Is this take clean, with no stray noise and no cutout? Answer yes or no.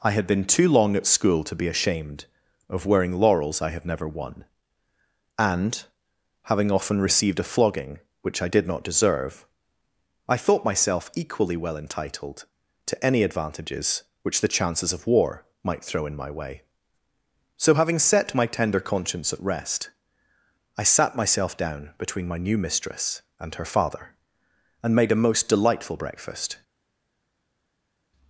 yes